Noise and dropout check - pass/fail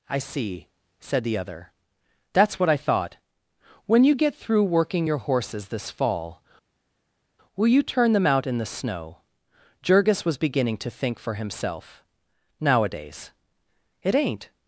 pass